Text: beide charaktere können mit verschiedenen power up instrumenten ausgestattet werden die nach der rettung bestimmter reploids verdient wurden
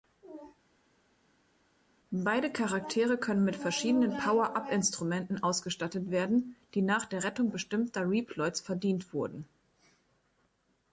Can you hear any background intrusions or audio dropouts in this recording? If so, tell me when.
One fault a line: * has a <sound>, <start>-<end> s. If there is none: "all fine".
all fine